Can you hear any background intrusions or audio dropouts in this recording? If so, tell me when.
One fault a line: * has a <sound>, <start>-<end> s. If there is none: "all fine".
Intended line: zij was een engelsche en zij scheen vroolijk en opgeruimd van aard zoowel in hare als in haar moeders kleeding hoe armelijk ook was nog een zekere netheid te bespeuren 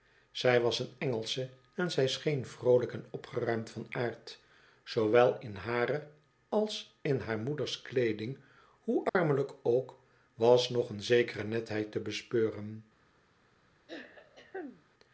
* has a dropout, 9.1-9.2 s
* has a throat clearing, 13.9-14.8 s